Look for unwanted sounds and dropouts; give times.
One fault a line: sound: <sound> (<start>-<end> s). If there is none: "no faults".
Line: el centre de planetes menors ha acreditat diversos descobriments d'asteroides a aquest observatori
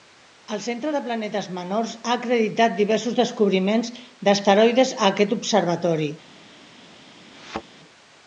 sound: thud (7.3-7.6 s)